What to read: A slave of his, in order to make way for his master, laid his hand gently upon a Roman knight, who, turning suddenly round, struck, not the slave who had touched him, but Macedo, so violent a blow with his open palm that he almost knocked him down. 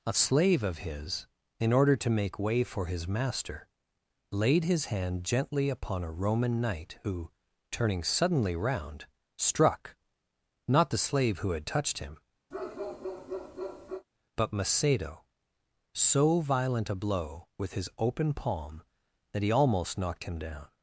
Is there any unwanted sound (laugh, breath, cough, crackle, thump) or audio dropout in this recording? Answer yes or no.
yes